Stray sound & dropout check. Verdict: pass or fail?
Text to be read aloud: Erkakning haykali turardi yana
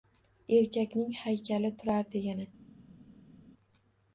pass